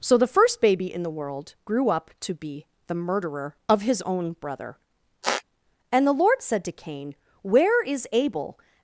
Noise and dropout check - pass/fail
fail